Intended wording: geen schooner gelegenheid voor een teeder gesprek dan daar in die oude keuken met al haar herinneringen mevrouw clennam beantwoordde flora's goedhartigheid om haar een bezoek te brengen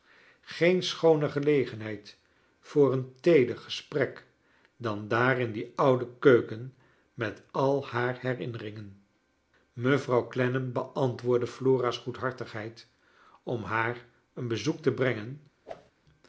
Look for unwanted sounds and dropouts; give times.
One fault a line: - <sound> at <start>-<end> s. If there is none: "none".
- whoosh at 15.6-15.9 s